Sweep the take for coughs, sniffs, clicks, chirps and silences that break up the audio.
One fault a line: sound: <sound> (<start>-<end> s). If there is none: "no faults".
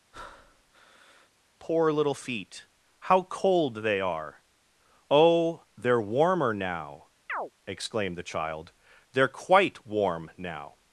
sound: breath (0.1-1.3 s)
sound: chirp (7.3-7.5 s)